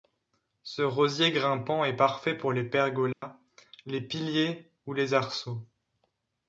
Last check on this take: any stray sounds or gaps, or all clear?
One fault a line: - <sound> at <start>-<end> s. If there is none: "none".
- dropout at 3.1-3.2 s